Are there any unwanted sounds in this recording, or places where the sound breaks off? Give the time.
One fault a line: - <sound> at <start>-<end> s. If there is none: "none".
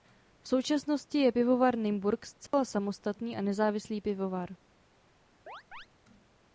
- dropout at 2.5-2.5 s
- chirp at 5.5-5.9 s